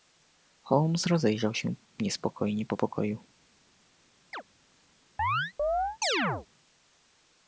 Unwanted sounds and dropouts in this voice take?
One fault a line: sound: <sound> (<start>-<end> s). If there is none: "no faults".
sound: chirp (4.3-4.4 s)
sound: chirp (5.2-6.5 s)